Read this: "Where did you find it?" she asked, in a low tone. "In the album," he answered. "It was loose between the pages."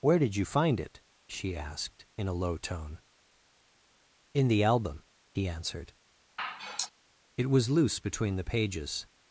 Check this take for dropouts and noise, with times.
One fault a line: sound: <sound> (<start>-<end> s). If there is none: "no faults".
sound: sigh (6.4-6.9 s)